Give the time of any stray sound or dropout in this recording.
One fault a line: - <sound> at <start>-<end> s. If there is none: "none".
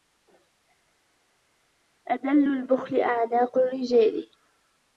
none